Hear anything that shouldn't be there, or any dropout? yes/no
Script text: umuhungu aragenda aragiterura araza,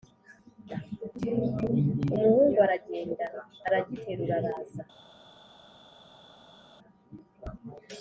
no